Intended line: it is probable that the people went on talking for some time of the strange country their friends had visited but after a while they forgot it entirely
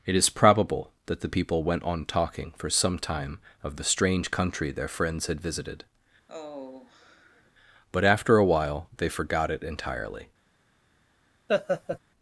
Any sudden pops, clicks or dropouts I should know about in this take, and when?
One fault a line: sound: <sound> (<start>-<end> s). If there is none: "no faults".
sound: sigh (6.3-7.5 s)
sound: laugh (11.5-12.0 s)